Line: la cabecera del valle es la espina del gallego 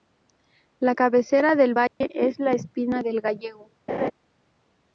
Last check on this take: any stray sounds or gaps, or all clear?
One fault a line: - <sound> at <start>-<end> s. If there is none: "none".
- dropout at 1.9-2.0 s
- laugh at 3.9-4.1 s